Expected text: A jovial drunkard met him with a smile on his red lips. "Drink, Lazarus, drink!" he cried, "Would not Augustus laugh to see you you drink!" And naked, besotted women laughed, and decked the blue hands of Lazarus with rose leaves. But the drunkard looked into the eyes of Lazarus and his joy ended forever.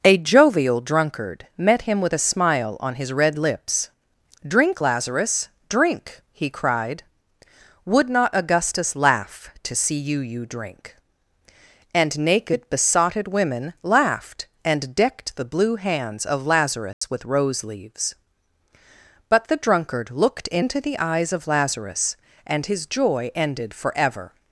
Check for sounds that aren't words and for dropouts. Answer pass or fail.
fail